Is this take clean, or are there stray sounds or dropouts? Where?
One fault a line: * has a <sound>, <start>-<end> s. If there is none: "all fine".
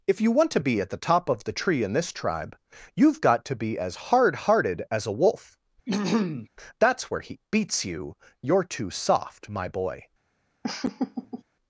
* has a throat clearing, 5.9-6.5 s
* has a laugh, 10.6-11.4 s